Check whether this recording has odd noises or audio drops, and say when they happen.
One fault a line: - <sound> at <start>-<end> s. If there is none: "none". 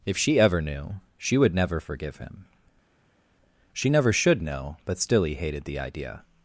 none